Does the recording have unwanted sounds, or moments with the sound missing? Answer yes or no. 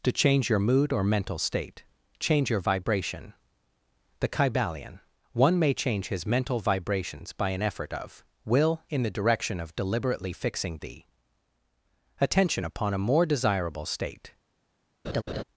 yes